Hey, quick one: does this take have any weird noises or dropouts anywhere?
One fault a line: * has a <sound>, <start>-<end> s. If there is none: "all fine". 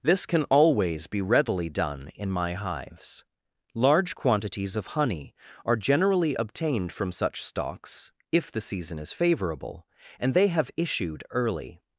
all fine